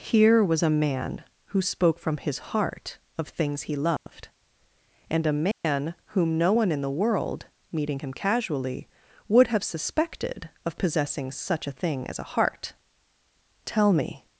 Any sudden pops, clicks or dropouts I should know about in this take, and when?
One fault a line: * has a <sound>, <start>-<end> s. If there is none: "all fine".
* has a dropout, 4.0-4.1 s
* has a dropout, 5.5-5.6 s